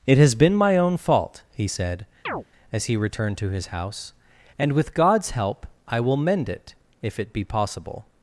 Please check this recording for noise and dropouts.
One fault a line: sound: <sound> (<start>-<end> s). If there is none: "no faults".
sound: chirp (2.3-2.4 s)